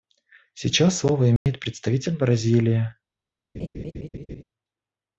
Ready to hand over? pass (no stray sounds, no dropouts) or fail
fail